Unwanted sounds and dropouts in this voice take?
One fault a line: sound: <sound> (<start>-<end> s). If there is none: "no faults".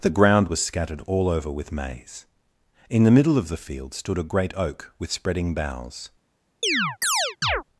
sound: chirp (6.6-7.6 s)